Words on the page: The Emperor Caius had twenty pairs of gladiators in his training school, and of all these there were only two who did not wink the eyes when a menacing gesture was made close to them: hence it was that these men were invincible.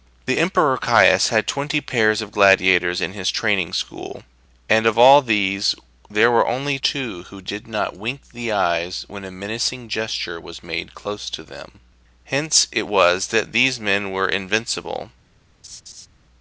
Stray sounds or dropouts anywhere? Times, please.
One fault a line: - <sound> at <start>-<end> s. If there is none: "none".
- laugh at 15.6-16.1 s